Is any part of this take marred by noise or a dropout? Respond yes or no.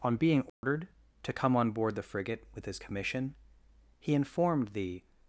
yes